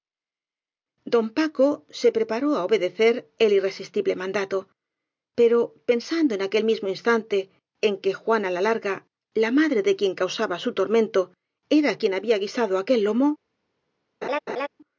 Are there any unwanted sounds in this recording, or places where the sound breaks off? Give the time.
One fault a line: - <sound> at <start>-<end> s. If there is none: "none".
- laugh at 14.2-14.7 s